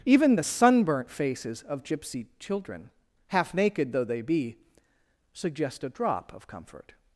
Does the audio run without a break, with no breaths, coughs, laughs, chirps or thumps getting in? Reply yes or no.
yes